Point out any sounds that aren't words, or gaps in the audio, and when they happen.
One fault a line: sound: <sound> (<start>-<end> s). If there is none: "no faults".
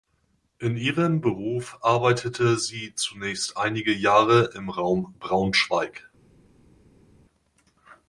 no faults